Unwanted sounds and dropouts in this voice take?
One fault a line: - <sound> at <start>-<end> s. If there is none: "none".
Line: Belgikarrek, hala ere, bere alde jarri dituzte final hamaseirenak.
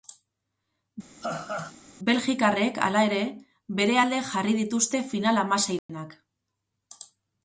- laugh at 1.2-1.8 s
- dropout at 5.8-5.9 s